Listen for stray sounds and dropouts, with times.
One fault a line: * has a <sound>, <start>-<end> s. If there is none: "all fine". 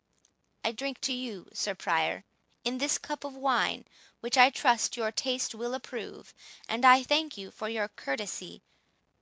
all fine